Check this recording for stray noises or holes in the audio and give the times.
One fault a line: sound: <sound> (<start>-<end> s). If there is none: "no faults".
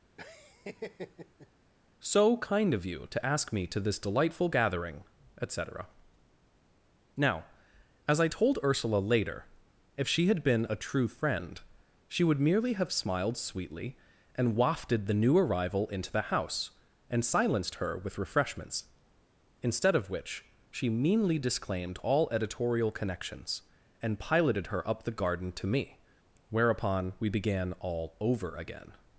sound: laugh (0.2-1.5 s)